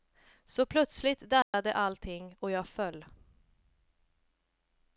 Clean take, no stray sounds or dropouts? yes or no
no